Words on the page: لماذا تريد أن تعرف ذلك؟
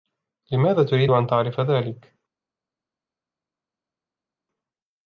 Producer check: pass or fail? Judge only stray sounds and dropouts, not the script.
pass